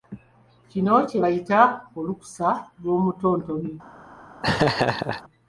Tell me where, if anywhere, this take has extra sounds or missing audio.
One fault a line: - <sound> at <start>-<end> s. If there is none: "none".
- laugh at 4.4-5.2 s